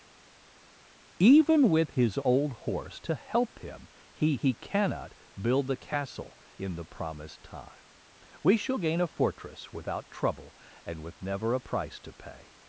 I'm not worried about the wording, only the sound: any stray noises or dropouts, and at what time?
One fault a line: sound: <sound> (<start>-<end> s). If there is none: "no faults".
no faults